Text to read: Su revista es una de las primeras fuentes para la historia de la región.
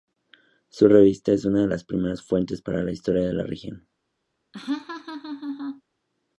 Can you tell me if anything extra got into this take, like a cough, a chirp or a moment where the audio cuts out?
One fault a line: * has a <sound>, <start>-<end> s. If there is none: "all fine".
* has a laugh, 4.5-5.8 s